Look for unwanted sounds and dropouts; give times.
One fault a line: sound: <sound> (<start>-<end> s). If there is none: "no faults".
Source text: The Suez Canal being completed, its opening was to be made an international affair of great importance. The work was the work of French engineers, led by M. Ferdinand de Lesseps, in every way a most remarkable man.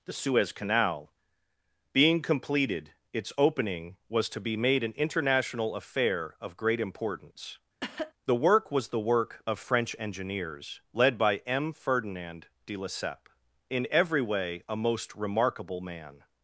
sound: cough (7.8-8.1 s)